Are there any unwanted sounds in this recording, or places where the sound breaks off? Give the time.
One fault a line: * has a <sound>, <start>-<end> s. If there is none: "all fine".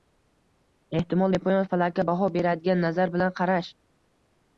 all fine